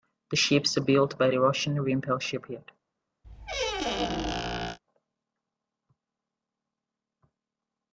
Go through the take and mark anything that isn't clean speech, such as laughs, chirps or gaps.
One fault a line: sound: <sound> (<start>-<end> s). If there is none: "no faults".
sound: squeak (3.2-4.8 s)